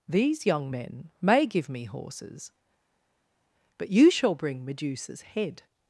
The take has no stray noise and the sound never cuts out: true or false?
true